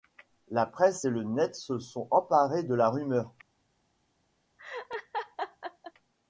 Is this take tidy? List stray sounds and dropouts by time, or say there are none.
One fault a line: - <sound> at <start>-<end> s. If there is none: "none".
- laugh at 4.6-5.9 s